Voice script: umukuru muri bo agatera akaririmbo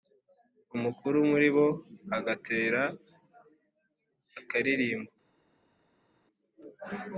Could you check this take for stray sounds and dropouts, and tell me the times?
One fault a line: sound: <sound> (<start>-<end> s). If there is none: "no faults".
no faults